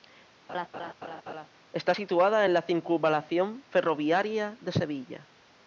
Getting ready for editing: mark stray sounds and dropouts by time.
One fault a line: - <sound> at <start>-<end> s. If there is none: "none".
- laugh at 0.5-1.5 s